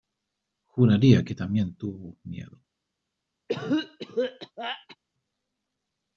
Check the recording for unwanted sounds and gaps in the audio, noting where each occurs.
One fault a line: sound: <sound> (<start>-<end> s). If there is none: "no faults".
sound: cough (3.5-5.0 s)